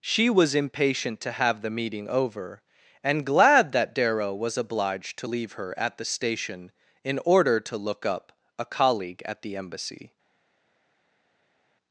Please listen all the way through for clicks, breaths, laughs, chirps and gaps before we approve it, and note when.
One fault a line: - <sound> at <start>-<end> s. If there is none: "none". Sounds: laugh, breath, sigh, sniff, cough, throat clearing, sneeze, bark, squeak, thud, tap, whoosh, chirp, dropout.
none